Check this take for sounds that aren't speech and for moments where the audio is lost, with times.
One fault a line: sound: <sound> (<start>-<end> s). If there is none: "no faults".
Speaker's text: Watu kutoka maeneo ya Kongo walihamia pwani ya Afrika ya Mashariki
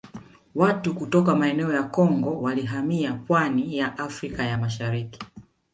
no faults